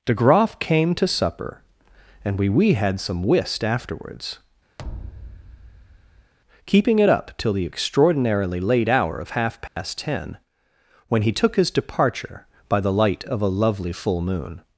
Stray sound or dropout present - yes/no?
yes